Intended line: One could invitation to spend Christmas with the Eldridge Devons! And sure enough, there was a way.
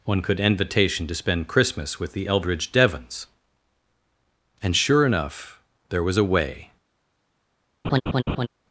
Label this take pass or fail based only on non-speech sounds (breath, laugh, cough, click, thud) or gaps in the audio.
fail